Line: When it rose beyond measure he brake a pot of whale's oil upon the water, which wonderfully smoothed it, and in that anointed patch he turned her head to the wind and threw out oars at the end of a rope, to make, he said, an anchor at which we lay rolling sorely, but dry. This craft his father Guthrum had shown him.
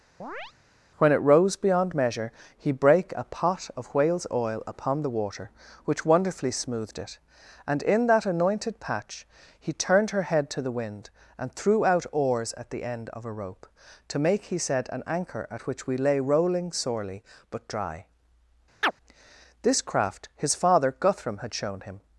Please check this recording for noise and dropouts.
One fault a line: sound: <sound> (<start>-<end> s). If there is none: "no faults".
sound: chirp (0.2-0.5 s)
sound: chirp (18.8-18.9 s)